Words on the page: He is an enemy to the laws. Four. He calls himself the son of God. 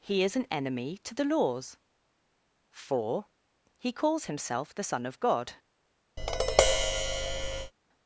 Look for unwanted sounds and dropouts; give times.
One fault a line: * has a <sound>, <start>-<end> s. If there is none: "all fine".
* has a tap, 6.2-7.7 s